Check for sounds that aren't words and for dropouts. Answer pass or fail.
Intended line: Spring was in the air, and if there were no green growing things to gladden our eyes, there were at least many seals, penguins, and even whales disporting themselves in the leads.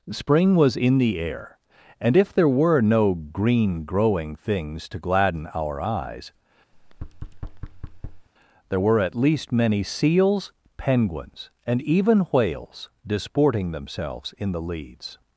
fail